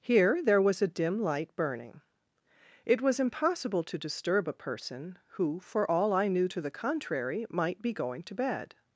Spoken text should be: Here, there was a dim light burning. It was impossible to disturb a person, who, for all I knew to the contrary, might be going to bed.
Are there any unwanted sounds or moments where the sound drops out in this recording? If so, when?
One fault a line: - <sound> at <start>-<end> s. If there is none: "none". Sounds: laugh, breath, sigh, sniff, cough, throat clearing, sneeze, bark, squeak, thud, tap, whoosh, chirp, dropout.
none